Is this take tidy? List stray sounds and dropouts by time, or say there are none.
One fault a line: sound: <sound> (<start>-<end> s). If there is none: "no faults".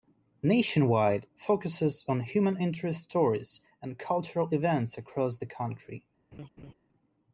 sound: laugh (6.3-6.7 s)